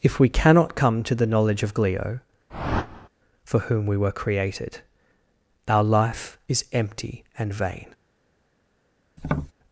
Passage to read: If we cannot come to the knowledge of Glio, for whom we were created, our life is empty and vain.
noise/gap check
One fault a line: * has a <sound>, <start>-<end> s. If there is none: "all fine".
* has a whoosh, 2.5-3.1 s
* has a tap, 9.2-9.5 s